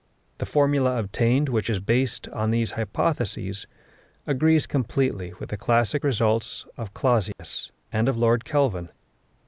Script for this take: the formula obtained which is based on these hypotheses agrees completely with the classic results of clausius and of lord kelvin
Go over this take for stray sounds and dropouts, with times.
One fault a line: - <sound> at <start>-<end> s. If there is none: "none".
- dropout at 7.3-7.4 s